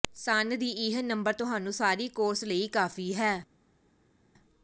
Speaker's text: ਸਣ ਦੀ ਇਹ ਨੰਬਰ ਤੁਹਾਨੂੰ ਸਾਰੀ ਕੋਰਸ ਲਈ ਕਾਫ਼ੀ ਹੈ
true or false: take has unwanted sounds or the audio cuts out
false